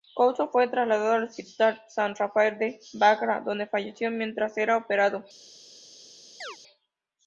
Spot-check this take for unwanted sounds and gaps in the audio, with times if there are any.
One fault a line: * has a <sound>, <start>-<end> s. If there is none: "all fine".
* has a chirp, 6.4-6.6 s